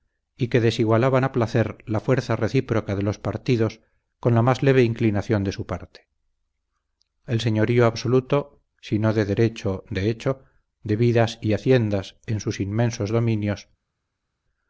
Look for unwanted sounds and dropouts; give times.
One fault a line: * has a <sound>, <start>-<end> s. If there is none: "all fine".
all fine